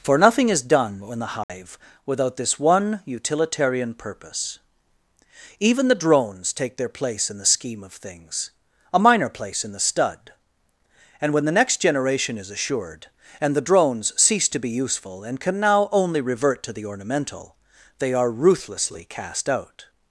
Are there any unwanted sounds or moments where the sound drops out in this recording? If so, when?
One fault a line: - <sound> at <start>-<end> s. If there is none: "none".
- dropout at 1.4-1.5 s